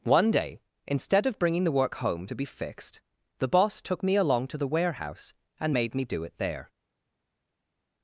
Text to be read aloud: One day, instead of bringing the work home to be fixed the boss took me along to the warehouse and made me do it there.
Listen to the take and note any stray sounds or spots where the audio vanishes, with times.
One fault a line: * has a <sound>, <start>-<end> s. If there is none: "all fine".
all fine